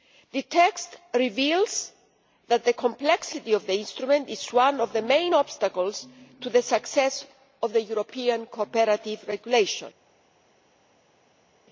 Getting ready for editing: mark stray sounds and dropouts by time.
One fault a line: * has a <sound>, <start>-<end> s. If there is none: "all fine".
all fine